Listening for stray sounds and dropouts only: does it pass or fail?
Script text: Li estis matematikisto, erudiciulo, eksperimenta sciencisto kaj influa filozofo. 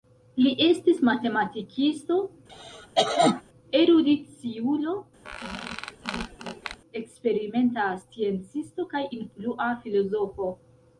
fail